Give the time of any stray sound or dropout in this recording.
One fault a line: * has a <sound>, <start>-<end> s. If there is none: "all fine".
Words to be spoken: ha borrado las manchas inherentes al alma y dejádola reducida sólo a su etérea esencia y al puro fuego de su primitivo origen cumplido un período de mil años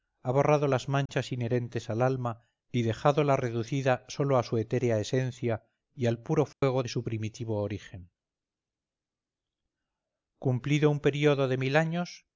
* has a dropout, 1.1-1.1 s
* has a dropout, 6.5-6.6 s